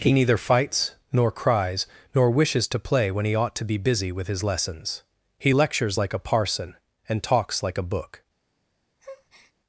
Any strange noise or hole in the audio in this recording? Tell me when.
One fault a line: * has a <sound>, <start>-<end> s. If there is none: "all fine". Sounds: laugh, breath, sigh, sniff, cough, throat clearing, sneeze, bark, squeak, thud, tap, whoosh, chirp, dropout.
* has a breath, 9.0-9.5 s